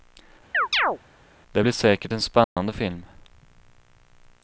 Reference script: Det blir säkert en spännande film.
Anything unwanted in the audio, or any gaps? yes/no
yes